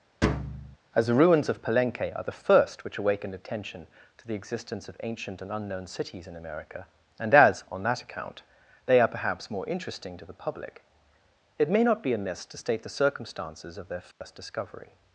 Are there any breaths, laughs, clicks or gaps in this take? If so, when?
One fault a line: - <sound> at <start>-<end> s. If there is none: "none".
- thud at 0.2-0.8 s
- dropout at 14.1-14.2 s